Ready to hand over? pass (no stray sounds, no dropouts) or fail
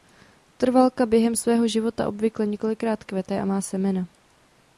pass